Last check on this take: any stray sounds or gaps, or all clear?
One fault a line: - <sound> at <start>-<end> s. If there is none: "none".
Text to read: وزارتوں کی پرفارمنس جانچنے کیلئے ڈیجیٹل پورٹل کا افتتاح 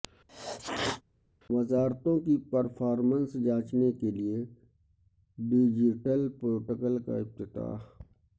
- sneeze at 0.3-1.0 s